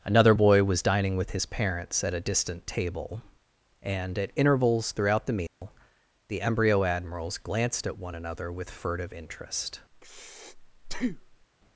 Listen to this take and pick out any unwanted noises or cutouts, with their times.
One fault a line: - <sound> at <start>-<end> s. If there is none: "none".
- dropout at 5.5-5.6 s
- breath at 9.9-11.5 s